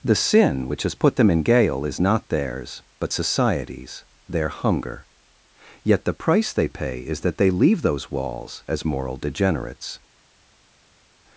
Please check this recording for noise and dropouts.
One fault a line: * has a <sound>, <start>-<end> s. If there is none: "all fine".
all fine